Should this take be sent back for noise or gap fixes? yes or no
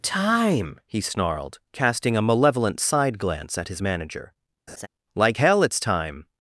yes